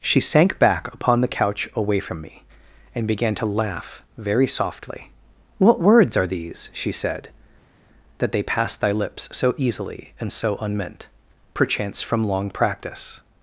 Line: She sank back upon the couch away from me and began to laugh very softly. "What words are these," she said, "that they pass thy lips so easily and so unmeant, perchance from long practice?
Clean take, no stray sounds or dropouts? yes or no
yes